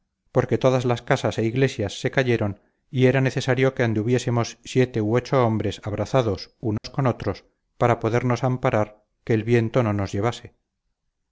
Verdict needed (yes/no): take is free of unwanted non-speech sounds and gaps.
no